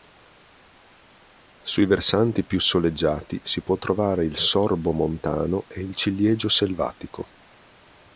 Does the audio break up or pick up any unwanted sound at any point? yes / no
no